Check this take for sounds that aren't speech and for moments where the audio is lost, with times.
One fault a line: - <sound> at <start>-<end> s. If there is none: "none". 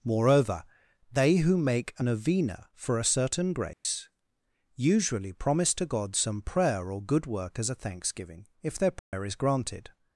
- dropout at 3.7-3.9 s
- dropout at 9.0-9.1 s